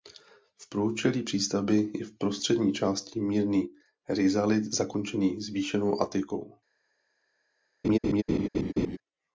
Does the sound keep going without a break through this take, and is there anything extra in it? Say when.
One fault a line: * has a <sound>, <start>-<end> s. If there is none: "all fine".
* has a laugh, 7.8-9.0 s